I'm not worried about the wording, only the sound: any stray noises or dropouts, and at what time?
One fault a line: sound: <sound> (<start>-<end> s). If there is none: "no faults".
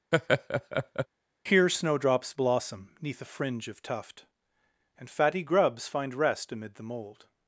sound: laugh (0.1-1.1 s)